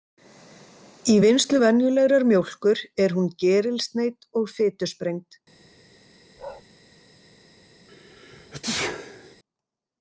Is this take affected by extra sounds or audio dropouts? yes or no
yes